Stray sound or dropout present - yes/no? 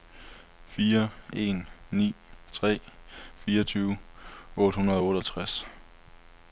no